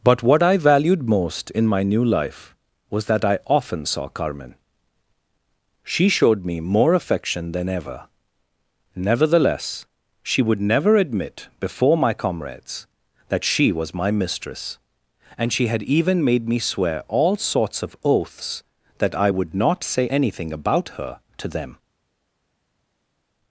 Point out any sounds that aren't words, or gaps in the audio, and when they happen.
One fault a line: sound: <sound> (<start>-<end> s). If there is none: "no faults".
no faults